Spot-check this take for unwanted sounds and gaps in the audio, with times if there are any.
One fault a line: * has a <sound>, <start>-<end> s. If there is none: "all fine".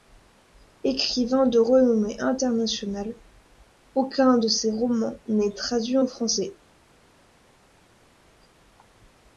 all fine